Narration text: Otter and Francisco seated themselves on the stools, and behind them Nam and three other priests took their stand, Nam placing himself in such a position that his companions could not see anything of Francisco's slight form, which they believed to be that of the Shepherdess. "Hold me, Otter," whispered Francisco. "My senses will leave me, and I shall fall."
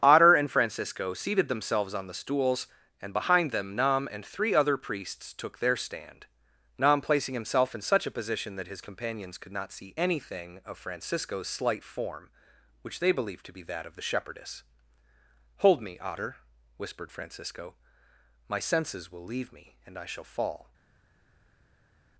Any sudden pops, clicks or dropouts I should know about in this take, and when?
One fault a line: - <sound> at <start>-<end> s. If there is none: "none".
none